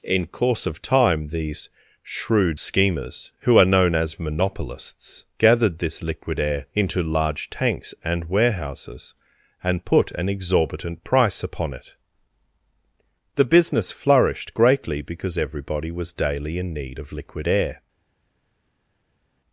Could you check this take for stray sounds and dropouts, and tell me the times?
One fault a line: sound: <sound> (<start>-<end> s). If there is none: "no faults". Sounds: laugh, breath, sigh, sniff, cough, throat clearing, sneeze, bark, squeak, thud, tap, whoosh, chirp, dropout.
no faults